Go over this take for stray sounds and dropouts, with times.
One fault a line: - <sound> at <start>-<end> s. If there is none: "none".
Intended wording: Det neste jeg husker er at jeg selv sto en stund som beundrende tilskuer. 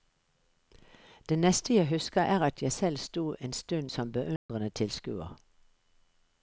- dropout at 4.4-4.5 s